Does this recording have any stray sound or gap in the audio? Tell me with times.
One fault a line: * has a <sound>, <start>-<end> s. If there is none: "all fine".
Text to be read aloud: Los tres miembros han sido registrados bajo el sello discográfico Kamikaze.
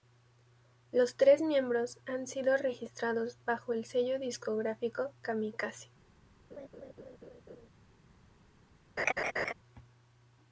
* has a laugh, 6.5-7.7 s
* has a laugh, 9.0-9.5 s